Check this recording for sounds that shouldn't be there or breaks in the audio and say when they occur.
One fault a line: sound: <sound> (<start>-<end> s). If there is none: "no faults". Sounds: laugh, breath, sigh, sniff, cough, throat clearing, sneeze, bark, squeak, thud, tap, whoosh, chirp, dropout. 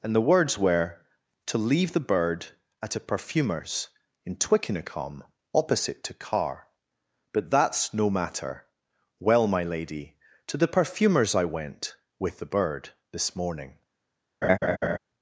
sound: laugh (14.4-15.0 s)